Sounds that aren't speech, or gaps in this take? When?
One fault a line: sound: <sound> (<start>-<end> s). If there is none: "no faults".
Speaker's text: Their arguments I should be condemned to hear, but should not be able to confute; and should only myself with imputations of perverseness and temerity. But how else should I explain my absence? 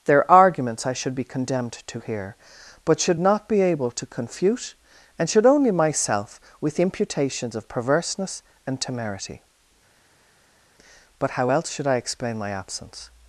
no faults